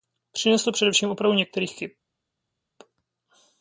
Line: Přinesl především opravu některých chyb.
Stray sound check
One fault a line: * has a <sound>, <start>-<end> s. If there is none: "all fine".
all fine